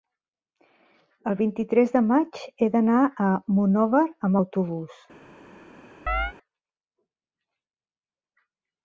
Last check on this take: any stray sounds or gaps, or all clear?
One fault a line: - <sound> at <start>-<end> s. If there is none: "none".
- chirp at 6.1-6.3 s